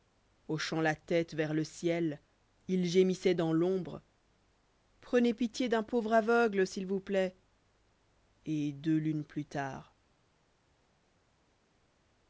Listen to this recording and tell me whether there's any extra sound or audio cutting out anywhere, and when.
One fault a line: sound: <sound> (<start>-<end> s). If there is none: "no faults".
no faults